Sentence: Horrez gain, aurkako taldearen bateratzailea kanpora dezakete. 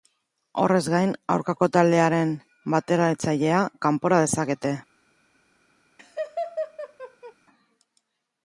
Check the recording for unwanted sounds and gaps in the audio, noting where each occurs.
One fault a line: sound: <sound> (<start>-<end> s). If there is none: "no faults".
sound: laugh (6.0-7.3 s)